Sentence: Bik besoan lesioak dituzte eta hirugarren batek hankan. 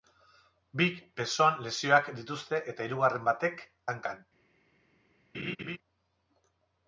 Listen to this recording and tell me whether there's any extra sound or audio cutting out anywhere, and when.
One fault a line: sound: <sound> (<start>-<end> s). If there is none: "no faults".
sound: laugh (5.3-5.8 s)